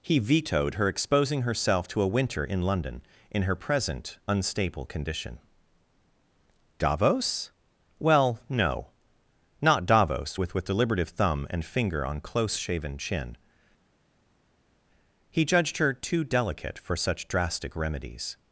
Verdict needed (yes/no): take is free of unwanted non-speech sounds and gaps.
yes